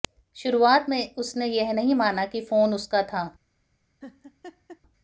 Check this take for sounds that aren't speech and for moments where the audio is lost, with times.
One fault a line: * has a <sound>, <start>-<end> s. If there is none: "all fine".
* has a laugh, 4.0-4.8 s